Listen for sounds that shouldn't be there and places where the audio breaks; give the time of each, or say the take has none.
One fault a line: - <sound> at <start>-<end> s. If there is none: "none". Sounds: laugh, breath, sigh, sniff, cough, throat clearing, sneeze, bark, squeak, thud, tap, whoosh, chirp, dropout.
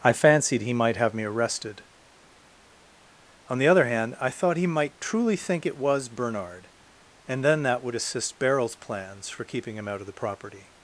none